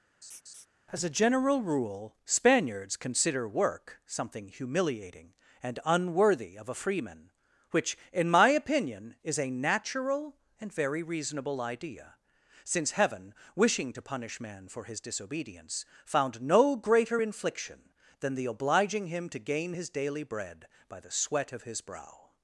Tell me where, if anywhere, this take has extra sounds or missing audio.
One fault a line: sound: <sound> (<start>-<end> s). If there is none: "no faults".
sound: laugh (0.2-0.7 s)